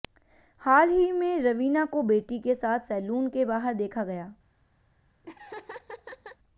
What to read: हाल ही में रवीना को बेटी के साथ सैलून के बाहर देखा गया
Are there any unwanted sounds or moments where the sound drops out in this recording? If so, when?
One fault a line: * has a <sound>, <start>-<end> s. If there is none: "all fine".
* has a laugh, 5.2-6.4 s